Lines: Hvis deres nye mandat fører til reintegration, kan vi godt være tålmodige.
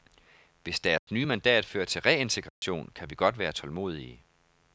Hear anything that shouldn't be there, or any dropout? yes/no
yes